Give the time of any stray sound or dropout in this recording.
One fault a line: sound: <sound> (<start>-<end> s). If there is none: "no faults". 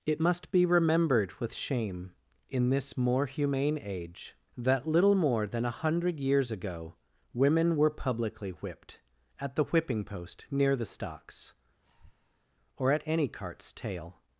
sound: breath (11.8-12.5 s)